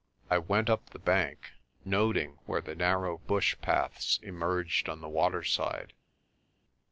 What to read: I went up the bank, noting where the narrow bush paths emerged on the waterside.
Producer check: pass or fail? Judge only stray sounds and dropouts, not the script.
pass